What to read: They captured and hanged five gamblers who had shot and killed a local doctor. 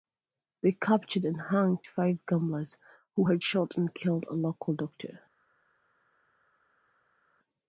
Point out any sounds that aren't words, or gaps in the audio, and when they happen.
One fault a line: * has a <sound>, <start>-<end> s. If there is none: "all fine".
all fine